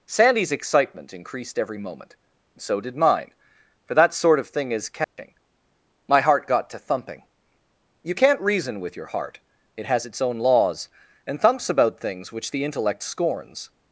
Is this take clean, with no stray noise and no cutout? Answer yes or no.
no